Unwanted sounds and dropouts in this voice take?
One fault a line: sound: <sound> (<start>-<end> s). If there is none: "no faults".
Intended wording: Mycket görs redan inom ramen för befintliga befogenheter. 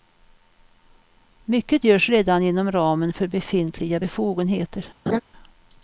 sound: laugh (5.1-5.2 s)